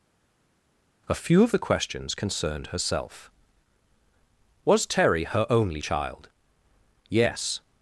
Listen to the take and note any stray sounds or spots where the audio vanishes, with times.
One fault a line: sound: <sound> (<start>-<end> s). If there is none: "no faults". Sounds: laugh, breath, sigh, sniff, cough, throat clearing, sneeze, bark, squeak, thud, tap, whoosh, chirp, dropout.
no faults